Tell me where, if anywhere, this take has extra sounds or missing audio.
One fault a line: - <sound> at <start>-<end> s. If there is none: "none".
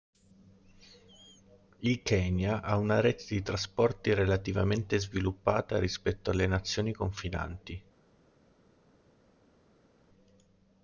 none